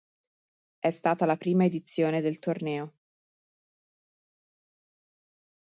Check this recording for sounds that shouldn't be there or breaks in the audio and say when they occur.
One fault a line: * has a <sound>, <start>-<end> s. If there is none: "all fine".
all fine